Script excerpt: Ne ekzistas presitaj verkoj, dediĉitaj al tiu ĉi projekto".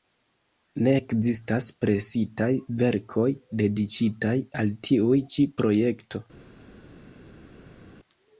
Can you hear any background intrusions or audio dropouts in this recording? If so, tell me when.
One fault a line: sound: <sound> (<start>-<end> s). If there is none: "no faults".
no faults